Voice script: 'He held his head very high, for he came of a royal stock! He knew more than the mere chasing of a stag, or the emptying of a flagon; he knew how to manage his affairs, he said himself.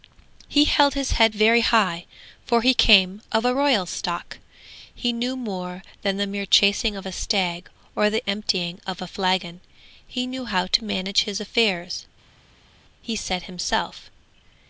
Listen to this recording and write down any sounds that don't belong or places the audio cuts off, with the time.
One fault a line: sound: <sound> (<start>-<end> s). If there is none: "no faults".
no faults